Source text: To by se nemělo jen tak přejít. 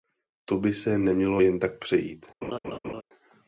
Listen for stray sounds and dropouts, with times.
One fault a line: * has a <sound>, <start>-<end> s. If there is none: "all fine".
* has a laugh, 2.4-3.0 s